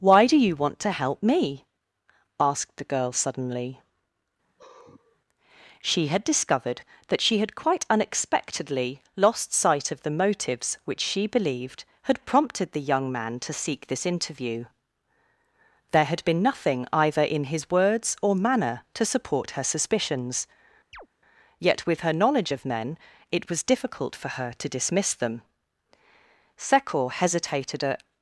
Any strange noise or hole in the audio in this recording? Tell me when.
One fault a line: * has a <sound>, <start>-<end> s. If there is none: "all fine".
* has a sigh, 4.4-5.2 s
* has a chirp, 20.9-21.1 s